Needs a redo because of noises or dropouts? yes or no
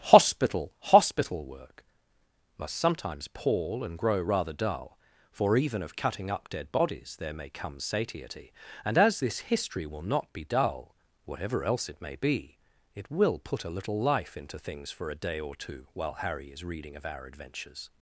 no